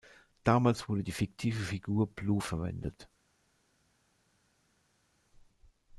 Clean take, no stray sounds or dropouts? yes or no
yes